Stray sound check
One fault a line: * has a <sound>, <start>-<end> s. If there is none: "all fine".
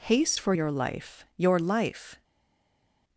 all fine